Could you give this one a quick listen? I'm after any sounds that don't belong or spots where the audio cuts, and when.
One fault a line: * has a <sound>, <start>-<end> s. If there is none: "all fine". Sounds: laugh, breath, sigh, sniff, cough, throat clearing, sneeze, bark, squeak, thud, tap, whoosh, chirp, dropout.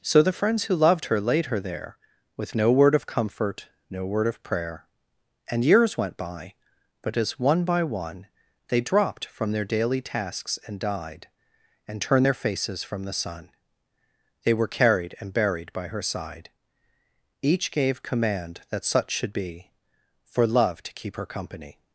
all fine